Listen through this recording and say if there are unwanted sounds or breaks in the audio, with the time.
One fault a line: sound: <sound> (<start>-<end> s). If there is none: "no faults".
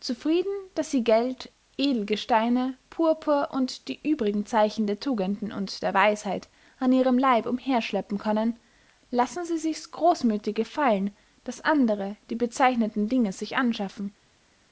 no faults